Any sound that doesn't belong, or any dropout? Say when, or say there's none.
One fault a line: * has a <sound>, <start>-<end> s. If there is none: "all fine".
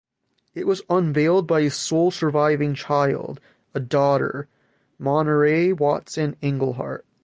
all fine